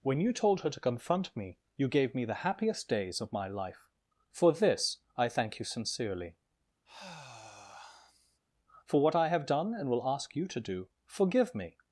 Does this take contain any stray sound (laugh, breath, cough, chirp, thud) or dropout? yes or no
yes